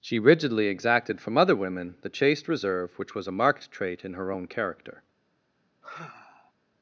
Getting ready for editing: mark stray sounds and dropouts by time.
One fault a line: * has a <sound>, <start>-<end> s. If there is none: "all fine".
* has a sigh, 5.8-6.5 s